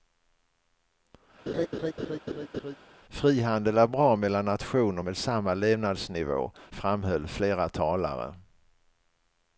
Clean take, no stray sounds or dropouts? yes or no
no